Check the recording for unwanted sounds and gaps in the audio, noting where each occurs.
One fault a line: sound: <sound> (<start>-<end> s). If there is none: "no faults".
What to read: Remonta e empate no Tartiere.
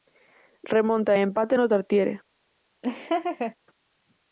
sound: laugh (2.8-3.5 s)